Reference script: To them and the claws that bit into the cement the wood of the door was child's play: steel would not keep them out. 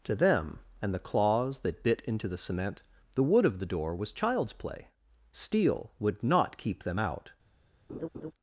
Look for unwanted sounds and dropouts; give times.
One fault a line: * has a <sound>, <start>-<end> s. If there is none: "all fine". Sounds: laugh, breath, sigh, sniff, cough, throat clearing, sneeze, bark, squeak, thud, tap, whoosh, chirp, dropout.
* has a laugh, 7.9-8.3 s